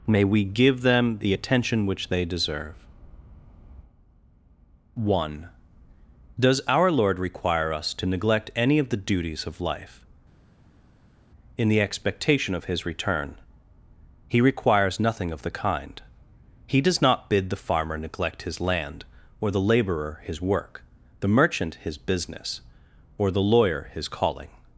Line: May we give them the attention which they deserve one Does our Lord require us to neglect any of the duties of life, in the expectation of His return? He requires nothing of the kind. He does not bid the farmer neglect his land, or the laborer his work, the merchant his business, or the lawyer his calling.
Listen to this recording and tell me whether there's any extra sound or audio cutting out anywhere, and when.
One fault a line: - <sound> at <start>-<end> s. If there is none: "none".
none